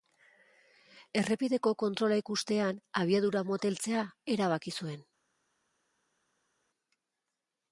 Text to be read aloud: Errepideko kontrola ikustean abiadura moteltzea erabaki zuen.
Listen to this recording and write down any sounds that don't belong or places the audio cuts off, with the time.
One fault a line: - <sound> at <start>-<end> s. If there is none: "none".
none